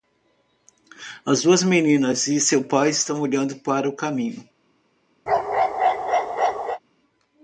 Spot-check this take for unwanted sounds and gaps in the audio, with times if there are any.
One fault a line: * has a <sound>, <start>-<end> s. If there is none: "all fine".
* has a bark, 5.3-6.8 s